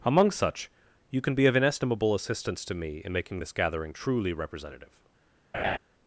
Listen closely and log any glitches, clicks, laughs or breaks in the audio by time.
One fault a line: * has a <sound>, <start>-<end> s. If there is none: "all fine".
* has a laugh, 5.5-5.8 s